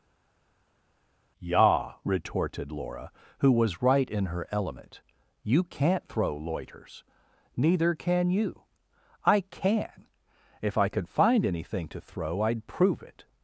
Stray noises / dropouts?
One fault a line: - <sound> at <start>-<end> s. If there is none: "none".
none